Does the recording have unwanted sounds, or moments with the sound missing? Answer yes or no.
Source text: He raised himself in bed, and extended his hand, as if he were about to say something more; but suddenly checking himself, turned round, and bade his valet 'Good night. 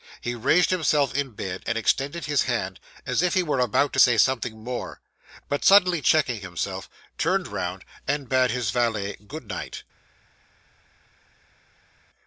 no